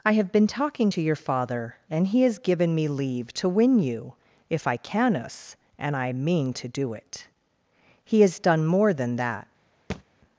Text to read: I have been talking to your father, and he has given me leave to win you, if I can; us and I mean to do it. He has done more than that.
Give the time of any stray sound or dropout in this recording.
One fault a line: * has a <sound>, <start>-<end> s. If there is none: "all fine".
* has a thud, 9.9-10.0 s